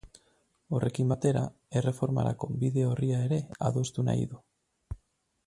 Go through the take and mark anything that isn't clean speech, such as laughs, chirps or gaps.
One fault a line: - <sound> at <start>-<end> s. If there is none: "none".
none